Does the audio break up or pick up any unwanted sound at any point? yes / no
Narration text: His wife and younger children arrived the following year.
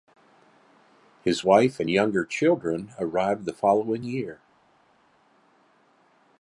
no